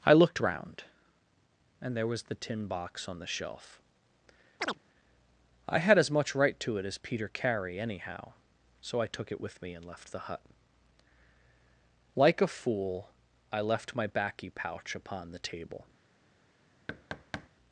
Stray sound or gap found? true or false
true